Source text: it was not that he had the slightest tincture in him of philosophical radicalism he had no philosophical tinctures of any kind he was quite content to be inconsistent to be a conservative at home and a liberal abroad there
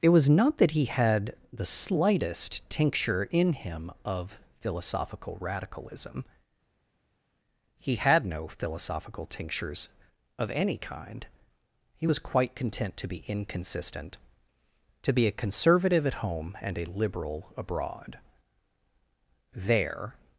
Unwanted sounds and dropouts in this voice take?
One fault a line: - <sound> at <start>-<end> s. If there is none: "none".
none